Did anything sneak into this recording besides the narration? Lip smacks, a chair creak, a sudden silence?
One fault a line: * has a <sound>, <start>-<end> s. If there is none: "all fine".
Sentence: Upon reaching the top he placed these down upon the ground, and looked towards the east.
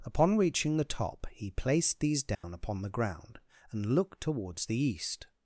* has a dropout, 2.3-2.4 s